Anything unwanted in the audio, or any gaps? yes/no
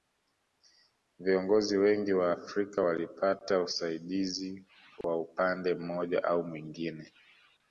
yes